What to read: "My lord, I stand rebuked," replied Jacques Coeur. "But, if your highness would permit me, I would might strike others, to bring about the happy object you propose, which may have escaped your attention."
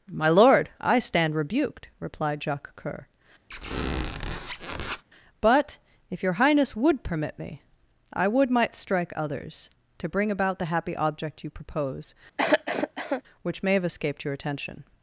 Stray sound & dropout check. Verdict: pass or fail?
fail